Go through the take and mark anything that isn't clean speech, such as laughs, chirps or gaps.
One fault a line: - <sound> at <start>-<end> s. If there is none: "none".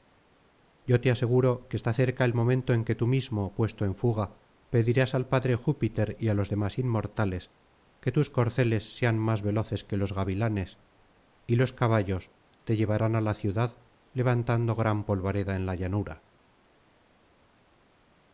none